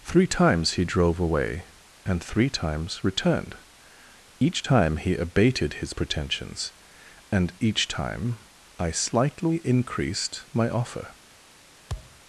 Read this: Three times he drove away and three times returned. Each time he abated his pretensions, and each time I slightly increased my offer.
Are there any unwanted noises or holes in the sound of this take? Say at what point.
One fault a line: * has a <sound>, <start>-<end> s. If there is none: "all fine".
* has a thud, 11.9-12.2 s